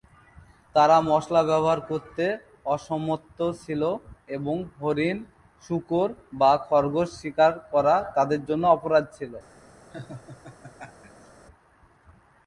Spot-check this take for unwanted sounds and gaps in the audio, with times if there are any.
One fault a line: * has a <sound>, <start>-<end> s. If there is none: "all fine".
* has a laugh, 9.9-11.3 s